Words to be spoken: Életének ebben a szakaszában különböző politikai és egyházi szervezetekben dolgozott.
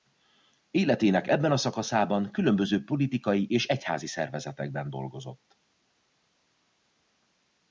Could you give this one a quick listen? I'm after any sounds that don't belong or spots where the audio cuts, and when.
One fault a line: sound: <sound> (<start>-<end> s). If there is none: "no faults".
no faults